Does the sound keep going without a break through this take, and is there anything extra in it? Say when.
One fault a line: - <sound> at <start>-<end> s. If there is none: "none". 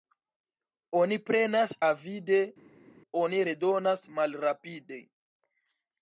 none